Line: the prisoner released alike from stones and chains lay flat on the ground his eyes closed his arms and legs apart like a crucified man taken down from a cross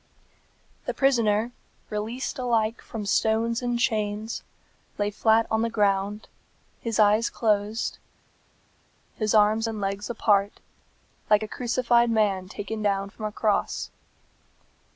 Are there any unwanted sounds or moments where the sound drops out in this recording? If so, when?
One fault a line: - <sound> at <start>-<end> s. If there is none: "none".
none